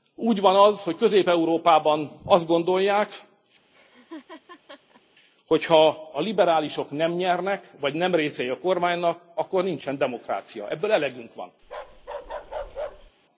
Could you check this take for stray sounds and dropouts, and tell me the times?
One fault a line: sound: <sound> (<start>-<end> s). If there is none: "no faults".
sound: laugh (3.7-5.0 s)
sound: bark (11.6-13.1 s)